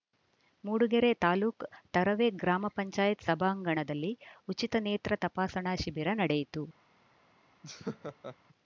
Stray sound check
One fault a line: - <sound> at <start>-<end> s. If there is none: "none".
- laugh at 7.6-8.4 s